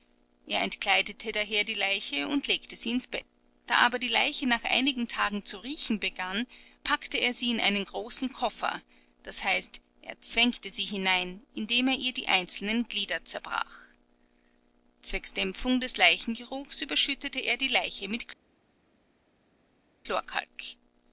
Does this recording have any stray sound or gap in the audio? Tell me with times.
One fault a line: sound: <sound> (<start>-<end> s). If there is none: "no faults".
no faults